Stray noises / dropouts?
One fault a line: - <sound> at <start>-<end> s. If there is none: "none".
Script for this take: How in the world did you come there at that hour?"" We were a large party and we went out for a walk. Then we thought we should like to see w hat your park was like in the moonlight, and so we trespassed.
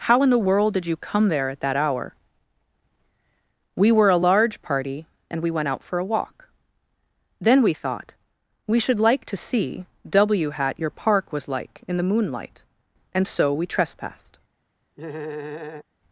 - laugh at 15.0-15.8 s